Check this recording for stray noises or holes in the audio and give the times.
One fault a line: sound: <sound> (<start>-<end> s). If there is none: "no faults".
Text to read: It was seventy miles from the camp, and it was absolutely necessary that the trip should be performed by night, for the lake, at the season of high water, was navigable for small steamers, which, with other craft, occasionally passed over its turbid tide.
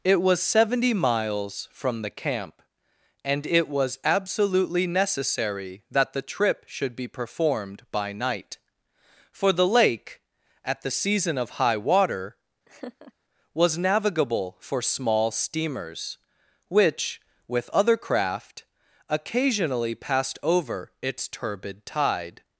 sound: laugh (12.7-13.1 s)